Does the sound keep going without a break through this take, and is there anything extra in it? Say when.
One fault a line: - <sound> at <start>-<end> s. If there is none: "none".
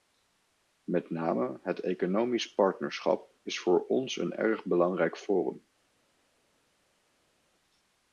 none